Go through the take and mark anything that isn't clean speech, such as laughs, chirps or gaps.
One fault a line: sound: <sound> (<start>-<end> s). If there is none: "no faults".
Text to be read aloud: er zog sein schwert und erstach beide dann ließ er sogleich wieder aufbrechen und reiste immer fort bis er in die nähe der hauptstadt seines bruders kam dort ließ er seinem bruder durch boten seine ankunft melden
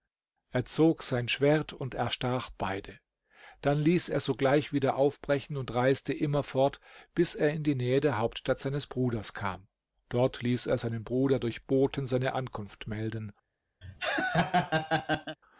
sound: laugh (13.8-15.4 s)